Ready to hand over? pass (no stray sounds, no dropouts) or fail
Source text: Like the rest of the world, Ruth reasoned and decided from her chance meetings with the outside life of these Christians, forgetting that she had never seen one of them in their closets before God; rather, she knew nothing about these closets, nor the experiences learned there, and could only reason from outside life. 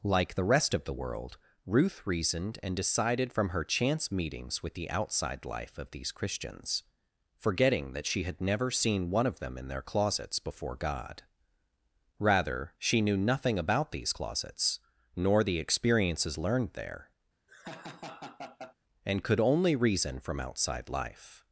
fail